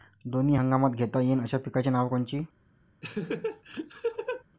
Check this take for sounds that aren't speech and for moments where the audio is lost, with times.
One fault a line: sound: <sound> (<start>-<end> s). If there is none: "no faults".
sound: laugh (3.0-4.4 s)